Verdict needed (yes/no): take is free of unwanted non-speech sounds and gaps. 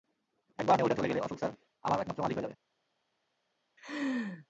no